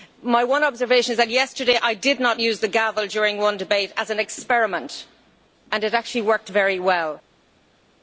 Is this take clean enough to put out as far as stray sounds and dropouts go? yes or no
yes